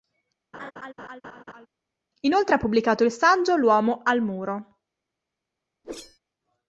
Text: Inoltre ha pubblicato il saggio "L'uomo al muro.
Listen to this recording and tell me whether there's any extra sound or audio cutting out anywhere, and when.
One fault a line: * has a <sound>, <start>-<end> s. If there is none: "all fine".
* has a laugh, 0.5-1.7 s
* has a whoosh, 5.8-6.2 s